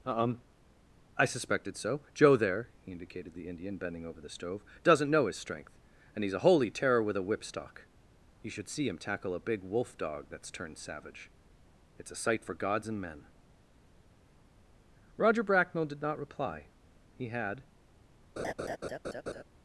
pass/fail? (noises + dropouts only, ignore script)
fail